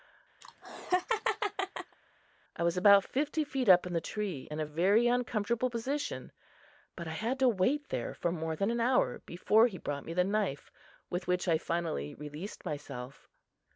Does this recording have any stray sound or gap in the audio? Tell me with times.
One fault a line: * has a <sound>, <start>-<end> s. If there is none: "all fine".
* has a laugh, 0.4-2.0 s